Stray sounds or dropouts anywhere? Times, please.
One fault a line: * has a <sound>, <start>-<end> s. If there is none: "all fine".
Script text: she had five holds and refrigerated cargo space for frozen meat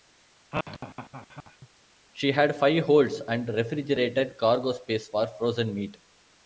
* has a laugh, 0.5-1.7 s